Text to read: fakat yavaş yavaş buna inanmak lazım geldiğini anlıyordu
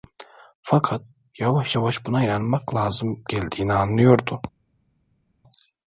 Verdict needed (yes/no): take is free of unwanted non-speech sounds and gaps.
yes